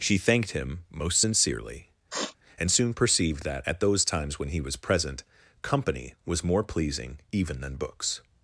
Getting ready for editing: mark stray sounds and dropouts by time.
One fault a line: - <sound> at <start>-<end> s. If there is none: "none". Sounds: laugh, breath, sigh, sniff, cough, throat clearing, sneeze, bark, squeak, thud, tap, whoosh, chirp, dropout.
- sniff at 2.1-2.4 s